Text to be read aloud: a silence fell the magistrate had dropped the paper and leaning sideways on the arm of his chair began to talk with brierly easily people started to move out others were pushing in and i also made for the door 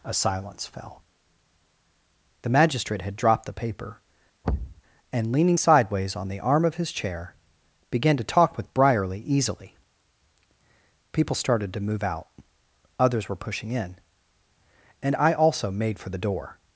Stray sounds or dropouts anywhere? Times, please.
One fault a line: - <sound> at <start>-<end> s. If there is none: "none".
- thud at 4.4-4.8 s